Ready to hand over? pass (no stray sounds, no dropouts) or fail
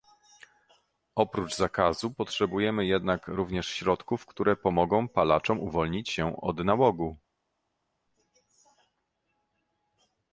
pass